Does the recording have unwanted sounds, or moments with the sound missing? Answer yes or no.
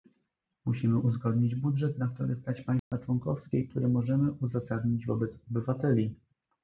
yes